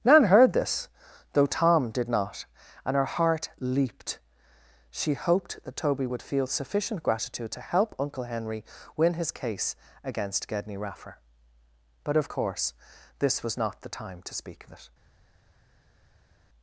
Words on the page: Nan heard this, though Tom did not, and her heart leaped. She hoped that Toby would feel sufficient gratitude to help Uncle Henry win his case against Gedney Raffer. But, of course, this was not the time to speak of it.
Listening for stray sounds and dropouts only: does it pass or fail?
pass